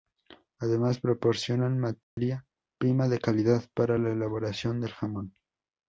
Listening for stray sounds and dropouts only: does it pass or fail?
fail